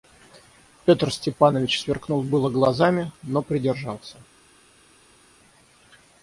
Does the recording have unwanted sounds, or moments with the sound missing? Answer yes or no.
no